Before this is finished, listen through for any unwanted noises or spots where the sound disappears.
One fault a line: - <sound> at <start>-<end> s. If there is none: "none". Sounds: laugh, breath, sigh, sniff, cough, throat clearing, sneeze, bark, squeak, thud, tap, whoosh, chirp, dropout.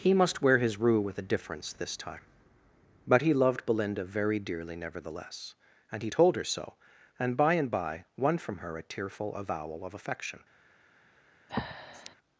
- breath at 11.5-12.2 s